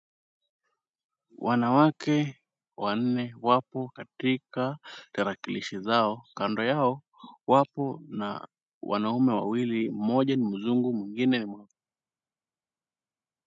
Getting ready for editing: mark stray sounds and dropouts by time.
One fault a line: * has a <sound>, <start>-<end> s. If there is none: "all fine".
all fine